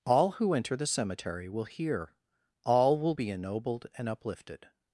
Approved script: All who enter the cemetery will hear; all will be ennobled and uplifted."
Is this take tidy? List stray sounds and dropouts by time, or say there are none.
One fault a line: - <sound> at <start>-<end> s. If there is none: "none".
none